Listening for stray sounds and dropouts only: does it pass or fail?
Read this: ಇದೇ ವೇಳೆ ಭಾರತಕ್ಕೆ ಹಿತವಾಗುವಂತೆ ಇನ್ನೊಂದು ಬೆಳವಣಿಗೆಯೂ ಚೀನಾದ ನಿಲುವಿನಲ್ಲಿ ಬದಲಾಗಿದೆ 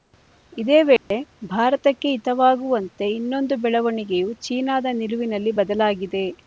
fail